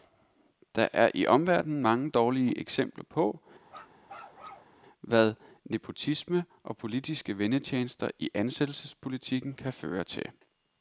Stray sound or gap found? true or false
true